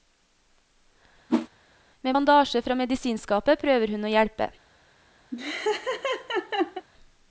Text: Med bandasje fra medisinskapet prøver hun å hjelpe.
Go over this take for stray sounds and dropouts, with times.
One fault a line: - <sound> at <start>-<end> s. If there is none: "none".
- whoosh at 1.3-1.5 s
- laugh at 5.3-6.9 s